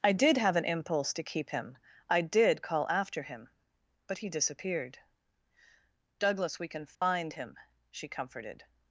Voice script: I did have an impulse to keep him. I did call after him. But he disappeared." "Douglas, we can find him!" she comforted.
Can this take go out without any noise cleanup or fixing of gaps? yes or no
no